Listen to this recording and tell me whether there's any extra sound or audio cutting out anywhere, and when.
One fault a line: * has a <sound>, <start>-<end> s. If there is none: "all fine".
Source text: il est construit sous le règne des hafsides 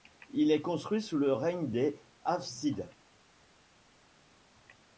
all fine